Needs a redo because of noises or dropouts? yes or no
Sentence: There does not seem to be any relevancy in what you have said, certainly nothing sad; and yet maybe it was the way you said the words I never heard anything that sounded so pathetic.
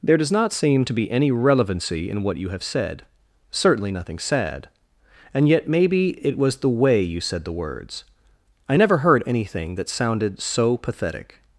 no